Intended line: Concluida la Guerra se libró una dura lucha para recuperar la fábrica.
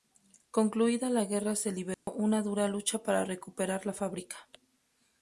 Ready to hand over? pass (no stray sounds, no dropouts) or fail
fail